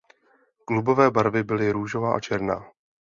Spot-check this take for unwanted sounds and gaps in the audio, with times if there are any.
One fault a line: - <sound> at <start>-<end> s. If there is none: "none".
none